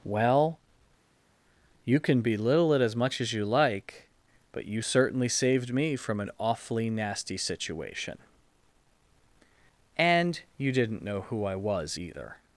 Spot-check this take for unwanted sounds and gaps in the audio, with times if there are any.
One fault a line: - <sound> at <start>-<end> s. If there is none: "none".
none